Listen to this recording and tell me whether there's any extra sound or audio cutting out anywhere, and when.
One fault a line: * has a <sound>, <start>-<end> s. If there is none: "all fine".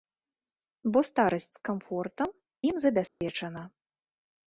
* has a dropout, 3.1-3.2 s